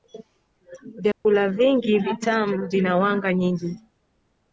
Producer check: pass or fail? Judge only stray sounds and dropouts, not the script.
fail